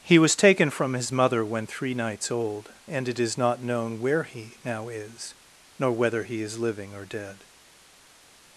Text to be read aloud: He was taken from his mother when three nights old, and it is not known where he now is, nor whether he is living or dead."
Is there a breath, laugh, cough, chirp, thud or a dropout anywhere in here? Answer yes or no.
no